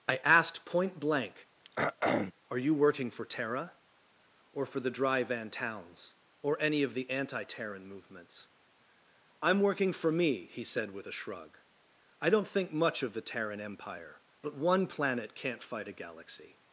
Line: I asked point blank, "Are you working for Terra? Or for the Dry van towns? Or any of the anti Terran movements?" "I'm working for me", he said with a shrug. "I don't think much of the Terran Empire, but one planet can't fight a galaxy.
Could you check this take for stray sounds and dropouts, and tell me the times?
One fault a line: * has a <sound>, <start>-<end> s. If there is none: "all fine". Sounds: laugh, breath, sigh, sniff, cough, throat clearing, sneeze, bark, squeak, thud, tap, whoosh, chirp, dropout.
* has a throat clearing, 1.6-2.3 s